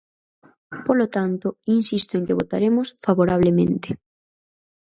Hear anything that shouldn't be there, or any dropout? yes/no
no